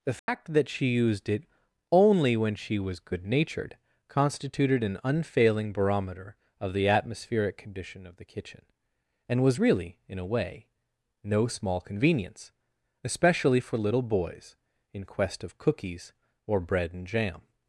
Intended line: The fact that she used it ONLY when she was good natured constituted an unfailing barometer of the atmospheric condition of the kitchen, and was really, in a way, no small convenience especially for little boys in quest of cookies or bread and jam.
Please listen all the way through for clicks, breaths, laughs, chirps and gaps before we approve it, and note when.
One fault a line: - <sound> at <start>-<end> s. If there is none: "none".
- dropout at 0.2-0.3 s